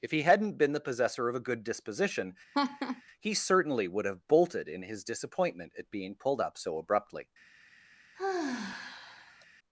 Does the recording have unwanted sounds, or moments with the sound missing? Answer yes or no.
yes